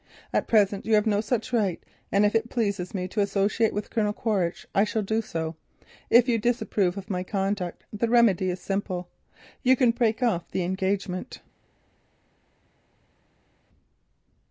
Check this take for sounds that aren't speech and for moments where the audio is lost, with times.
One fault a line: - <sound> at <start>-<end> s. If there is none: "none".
none